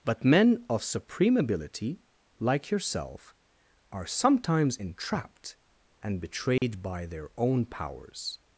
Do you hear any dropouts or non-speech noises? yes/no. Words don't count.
yes